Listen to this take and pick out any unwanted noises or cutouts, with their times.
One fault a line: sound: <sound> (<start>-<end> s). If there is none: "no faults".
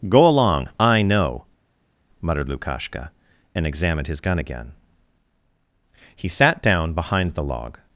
no faults